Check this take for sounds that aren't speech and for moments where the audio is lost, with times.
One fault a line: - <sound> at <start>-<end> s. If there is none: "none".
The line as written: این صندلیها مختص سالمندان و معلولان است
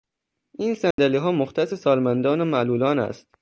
- dropout at 0.9-1.0 s